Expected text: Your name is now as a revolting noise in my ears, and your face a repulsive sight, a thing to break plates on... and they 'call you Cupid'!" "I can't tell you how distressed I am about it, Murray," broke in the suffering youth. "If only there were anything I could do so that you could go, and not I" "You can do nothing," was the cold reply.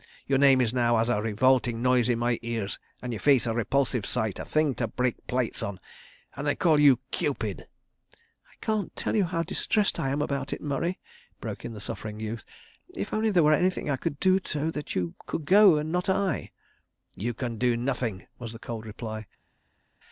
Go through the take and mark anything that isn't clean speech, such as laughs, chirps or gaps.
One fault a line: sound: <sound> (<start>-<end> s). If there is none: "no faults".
no faults